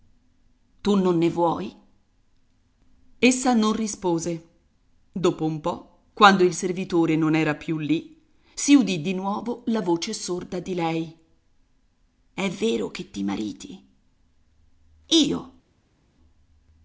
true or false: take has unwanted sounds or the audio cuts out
false